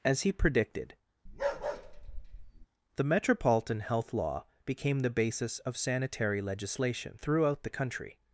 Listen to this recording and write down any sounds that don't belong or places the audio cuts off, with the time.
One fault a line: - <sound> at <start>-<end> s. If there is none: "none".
- bark at 1.3-2.7 s